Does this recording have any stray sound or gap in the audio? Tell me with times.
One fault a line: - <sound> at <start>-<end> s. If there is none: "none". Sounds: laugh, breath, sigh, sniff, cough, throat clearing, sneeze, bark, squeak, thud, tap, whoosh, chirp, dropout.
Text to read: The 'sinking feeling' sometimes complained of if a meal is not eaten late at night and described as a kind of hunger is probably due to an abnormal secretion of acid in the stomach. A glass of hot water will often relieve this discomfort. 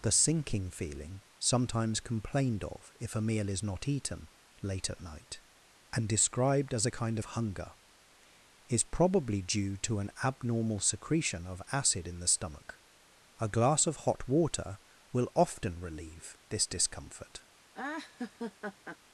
- laugh at 17.7-19.0 s